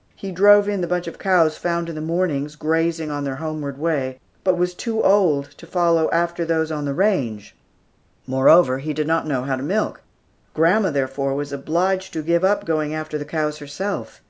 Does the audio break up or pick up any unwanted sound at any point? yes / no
no